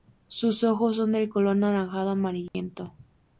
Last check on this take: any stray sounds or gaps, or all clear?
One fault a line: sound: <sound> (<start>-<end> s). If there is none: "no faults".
sound: dropout (2.5-2.5 s)